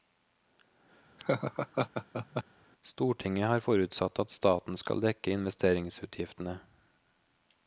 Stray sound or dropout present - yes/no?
yes